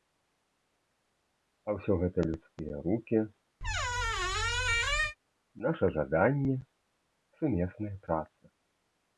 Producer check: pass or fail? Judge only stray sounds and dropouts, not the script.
fail